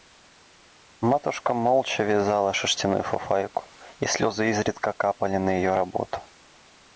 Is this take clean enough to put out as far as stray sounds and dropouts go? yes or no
yes